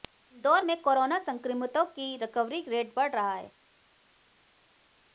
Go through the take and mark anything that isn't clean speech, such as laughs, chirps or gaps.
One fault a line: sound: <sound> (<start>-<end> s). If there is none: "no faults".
no faults